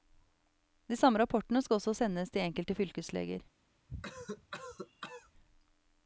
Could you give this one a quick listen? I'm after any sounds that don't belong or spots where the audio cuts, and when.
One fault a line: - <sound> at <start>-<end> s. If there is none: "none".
- cough at 3.9-5.3 s